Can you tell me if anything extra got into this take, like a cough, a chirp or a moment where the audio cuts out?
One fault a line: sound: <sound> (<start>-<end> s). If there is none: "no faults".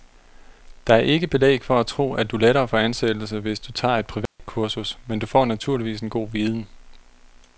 sound: dropout (4.3-4.4 s)